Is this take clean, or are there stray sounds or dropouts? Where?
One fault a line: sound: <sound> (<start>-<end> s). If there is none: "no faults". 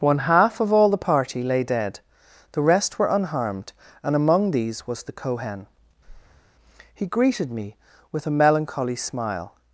sound: breath (6.0-6.5 s)